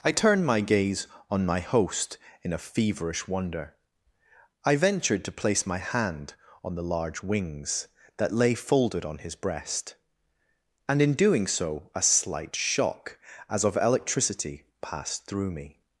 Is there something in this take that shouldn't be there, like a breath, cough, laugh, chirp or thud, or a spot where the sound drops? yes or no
no